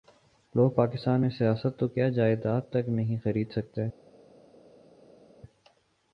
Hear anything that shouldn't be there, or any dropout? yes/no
no